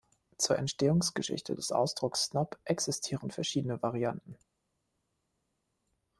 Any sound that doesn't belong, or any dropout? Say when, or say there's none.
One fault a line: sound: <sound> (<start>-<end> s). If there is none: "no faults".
no faults